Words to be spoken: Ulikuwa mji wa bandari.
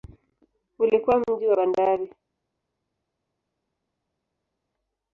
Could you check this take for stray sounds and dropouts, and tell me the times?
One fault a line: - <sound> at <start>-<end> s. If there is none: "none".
none